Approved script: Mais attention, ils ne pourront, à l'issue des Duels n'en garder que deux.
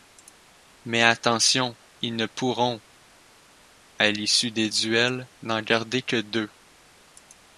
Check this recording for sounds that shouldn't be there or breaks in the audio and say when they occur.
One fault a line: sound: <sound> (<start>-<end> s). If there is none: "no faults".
no faults